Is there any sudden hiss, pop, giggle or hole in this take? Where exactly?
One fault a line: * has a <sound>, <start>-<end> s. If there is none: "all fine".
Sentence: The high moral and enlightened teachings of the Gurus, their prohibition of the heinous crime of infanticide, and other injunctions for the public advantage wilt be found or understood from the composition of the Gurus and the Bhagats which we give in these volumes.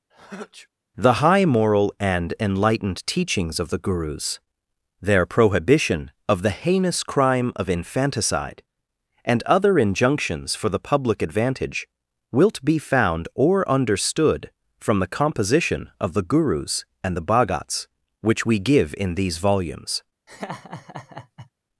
* has a sneeze, 0.1-0.7 s
* has a laugh, 20.3-21.5 s